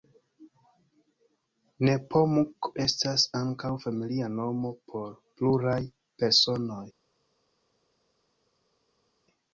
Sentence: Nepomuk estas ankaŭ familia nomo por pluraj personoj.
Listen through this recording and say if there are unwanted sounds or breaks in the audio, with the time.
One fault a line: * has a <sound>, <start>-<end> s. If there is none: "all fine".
all fine